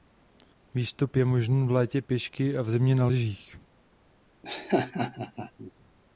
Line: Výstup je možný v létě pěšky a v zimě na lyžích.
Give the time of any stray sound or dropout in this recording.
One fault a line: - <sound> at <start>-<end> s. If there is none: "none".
- laugh at 4.4-5.7 s